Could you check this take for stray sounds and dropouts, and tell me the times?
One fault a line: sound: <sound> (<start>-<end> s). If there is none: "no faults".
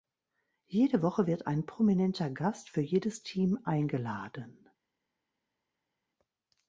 no faults